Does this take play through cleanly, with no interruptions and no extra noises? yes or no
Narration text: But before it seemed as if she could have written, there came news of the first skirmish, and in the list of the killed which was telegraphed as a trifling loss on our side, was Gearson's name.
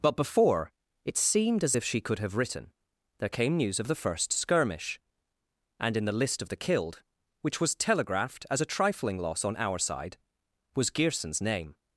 yes